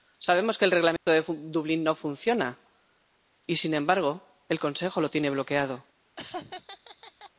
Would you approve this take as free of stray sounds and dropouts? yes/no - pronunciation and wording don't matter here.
no